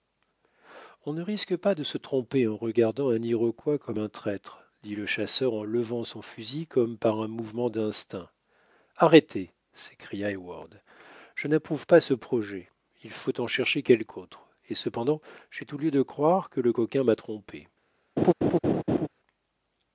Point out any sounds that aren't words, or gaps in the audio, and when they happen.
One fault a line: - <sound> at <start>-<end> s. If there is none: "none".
- laugh at 18.2-19.1 s